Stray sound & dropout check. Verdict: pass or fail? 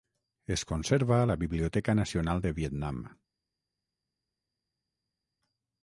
pass